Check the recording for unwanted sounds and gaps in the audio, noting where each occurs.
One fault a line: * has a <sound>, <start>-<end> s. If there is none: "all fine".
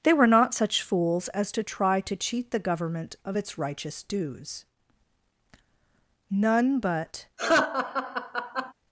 * has a laugh, 7.4-8.7 s